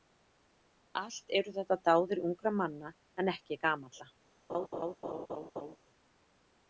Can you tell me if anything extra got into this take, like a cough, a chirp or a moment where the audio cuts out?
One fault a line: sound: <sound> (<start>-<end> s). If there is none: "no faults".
sound: laugh (4.5-5.8 s)